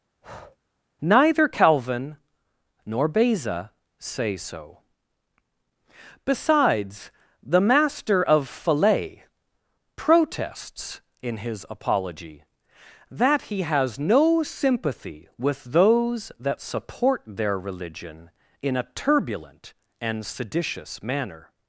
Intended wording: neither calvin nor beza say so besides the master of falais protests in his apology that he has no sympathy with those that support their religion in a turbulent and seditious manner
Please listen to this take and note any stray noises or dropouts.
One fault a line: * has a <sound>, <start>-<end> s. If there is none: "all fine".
* has a breath, 0.2-0.6 s